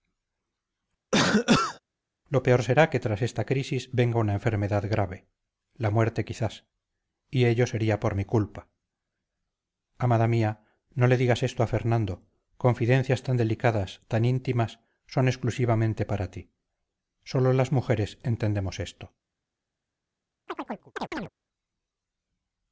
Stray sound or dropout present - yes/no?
yes